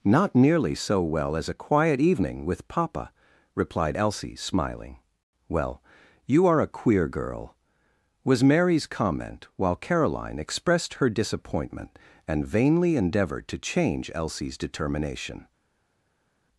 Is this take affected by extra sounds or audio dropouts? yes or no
no